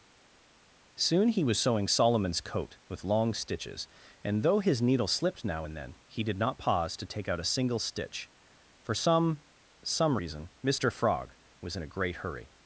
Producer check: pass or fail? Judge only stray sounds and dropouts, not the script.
pass